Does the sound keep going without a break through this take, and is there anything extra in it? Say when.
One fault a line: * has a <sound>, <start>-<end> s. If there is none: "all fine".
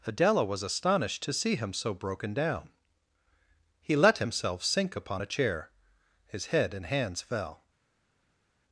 all fine